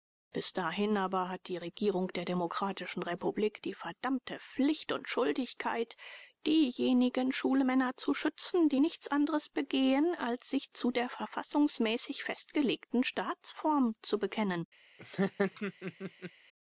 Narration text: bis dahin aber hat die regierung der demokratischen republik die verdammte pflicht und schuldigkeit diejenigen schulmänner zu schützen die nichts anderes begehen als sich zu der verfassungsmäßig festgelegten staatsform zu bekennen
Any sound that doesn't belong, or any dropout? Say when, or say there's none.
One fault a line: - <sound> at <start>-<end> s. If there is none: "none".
- laugh at 15.0-16.3 s